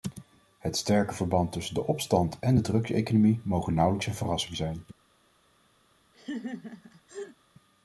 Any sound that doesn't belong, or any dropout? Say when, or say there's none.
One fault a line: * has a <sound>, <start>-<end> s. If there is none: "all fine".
* has a laugh, 6.1-7.4 s